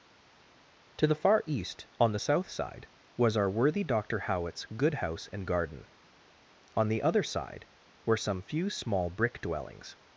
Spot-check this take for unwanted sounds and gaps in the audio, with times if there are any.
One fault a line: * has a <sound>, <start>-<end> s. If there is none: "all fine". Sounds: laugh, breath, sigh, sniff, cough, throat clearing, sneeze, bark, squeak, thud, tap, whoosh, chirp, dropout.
all fine